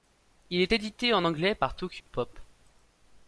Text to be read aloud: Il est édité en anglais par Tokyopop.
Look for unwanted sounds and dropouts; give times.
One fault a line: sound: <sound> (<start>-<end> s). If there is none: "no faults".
sound: dropout (2.0-2.1 s)